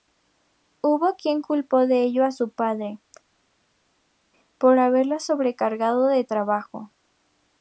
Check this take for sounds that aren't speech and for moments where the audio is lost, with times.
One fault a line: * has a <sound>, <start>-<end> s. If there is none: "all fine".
all fine